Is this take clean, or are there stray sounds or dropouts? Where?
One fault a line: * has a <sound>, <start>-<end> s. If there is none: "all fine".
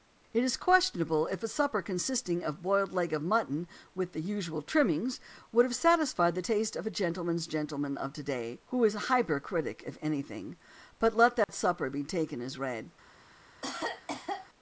* has a dropout, 11.4-11.5 s
* has a cough, 13.6-14.5 s